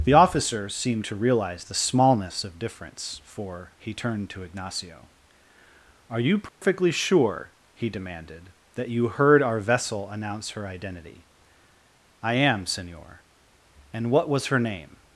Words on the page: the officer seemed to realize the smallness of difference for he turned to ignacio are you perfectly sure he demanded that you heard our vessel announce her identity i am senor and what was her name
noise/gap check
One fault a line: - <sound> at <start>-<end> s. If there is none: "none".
- dropout at 6.5-6.6 s